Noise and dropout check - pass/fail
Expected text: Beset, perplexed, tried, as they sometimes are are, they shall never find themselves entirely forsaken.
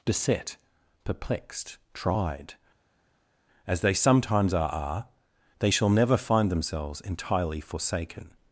pass